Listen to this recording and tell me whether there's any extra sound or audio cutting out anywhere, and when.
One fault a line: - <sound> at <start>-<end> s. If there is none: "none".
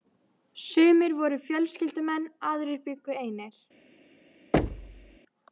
- thud at 4.5-5.2 s